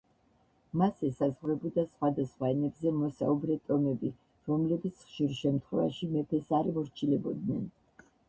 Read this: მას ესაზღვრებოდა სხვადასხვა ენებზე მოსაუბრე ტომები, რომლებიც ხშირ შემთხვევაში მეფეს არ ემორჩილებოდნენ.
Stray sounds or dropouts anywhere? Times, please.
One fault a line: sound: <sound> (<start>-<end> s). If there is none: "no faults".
no faults